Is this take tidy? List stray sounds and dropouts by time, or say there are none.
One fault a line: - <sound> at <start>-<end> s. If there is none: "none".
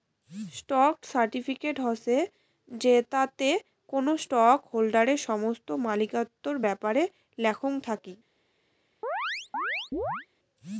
- chirp at 9.0-10.3 s